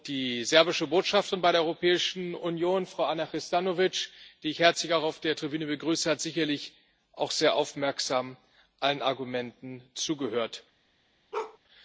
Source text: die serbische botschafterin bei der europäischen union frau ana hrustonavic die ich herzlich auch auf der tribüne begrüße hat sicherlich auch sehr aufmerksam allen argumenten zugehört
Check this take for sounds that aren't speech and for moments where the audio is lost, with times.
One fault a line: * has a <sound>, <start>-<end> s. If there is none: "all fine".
* has a bark, 11.3-11.6 s